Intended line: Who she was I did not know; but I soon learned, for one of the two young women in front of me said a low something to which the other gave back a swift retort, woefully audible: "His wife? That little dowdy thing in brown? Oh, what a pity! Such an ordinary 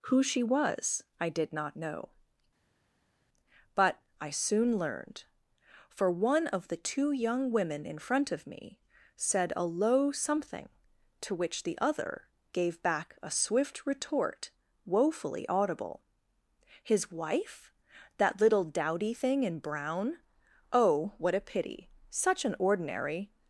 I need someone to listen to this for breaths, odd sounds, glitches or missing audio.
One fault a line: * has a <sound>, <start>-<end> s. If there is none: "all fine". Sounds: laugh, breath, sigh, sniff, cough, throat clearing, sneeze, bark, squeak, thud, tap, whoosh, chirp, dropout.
all fine